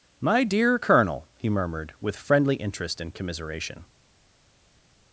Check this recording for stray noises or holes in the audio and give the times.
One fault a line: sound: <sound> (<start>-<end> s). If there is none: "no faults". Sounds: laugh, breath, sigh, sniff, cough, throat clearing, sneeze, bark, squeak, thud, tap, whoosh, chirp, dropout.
no faults